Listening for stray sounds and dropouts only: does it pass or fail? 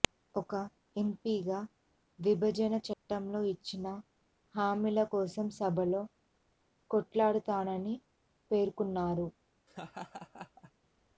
fail